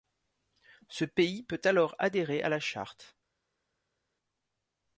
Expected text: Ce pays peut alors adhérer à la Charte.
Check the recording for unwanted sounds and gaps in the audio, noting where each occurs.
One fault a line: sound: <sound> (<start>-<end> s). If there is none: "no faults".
no faults